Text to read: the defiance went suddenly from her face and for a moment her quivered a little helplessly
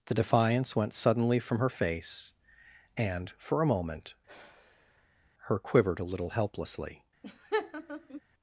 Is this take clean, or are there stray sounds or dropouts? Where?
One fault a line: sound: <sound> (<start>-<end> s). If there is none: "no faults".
sound: sigh (4.3-5.3 s)
sound: laugh (7.2-8.2 s)